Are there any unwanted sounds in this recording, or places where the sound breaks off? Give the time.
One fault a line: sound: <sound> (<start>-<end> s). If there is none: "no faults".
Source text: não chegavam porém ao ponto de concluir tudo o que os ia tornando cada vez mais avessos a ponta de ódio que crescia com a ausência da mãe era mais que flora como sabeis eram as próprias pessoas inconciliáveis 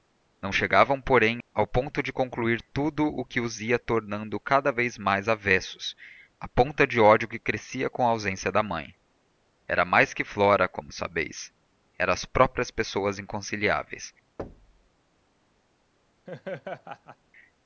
sound: thud (14.4-14.9 s)
sound: laugh (16.3-17.2 s)